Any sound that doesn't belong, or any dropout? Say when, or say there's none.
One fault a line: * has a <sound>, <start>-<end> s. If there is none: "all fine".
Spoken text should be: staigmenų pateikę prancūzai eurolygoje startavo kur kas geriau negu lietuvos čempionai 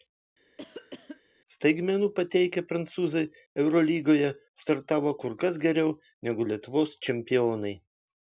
* has a cough, 0.6-1.2 s